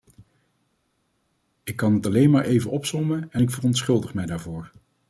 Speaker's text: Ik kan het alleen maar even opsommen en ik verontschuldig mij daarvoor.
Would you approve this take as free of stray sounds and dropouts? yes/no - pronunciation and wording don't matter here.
yes